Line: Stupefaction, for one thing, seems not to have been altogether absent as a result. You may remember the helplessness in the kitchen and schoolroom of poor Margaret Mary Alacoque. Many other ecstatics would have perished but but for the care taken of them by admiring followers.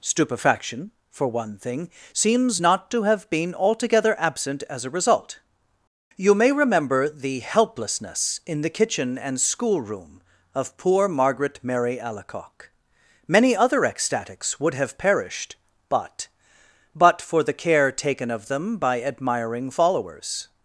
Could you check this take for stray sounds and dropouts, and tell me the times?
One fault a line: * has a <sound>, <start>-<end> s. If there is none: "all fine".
all fine